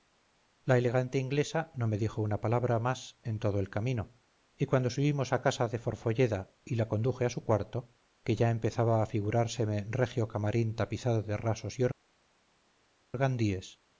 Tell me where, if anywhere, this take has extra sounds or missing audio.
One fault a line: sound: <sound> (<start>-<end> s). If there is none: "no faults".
no faults